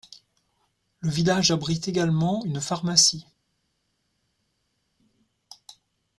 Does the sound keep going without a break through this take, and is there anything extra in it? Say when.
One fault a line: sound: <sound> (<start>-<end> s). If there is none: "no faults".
no faults